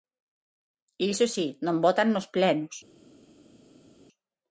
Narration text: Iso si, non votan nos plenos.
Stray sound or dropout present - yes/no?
no